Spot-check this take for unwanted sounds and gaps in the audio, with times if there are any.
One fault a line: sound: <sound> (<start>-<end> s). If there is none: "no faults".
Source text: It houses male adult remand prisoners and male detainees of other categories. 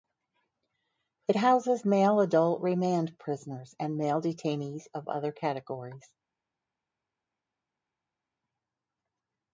no faults